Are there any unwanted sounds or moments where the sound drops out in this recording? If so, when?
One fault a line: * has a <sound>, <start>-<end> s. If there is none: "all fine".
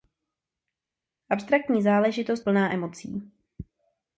all fine